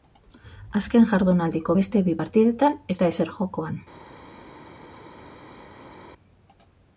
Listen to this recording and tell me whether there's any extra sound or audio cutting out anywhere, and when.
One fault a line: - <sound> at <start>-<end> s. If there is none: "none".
none